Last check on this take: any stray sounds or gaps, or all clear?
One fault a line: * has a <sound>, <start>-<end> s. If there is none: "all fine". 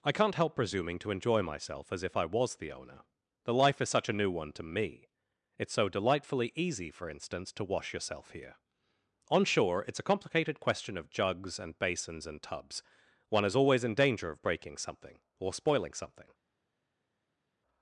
all fine